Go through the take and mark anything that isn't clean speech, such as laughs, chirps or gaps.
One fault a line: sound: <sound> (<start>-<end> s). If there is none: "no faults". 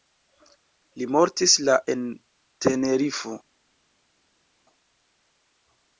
no faults